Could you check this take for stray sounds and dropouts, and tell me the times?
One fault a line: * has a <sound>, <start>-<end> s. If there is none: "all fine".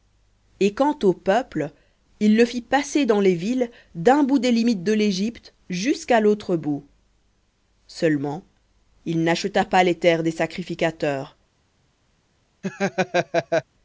* has a laugh, 12.6-13.6 s